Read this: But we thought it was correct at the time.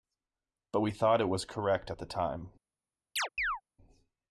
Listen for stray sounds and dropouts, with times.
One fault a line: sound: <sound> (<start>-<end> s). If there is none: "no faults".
sound: chirp (3.2-3.6 s)